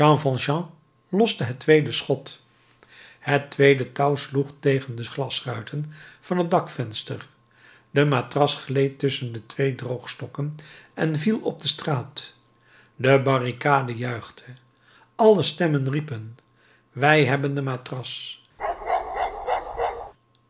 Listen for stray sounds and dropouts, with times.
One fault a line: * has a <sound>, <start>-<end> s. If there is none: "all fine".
* has a bark, 18.6-20.1 s